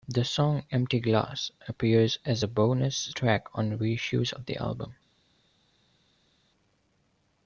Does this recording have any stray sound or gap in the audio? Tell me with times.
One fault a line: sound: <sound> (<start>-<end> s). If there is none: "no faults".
no faults